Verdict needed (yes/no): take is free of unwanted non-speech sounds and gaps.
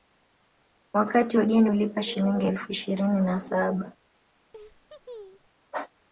no